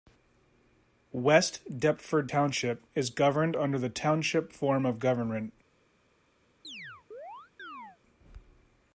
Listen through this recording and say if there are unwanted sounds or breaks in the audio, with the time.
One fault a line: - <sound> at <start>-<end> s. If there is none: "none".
- chirp at 6.6-8.0 s